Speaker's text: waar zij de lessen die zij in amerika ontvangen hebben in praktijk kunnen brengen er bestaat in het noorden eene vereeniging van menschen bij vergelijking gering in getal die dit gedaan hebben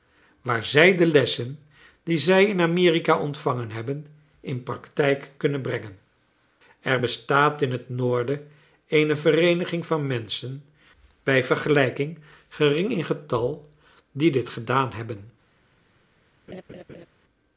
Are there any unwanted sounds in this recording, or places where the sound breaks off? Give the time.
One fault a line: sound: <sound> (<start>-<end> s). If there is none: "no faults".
sound: laugh (16.5-17.1 s)